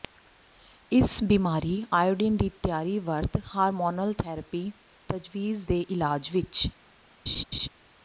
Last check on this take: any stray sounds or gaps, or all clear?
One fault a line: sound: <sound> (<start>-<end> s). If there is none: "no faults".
sound: laugh (7.3-7.7 s)